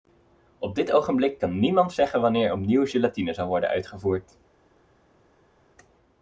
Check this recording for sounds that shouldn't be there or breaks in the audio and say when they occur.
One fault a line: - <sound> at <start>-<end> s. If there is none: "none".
none